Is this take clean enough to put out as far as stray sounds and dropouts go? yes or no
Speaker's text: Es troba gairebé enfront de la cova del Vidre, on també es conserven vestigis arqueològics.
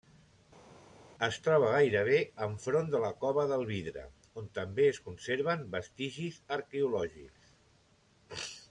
yes